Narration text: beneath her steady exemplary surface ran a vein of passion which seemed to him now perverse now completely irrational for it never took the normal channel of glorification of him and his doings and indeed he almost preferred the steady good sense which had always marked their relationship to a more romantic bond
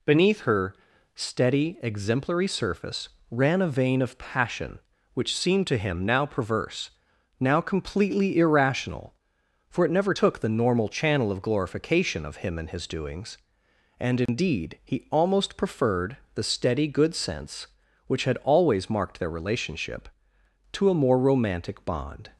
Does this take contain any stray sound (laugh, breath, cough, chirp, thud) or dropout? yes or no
yes